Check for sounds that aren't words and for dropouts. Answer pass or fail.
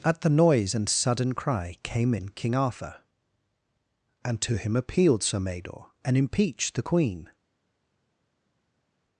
pass